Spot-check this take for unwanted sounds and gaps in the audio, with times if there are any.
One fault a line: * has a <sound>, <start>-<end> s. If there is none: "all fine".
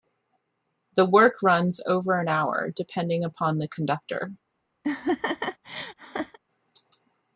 * has a laugh, 4.8-6.4 s